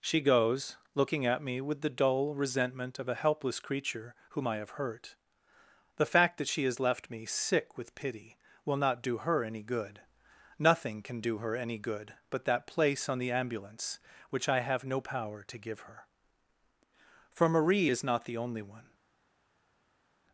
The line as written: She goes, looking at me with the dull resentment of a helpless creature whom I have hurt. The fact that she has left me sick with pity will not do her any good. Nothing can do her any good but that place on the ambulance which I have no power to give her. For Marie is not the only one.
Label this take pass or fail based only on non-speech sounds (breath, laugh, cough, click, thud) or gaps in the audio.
pass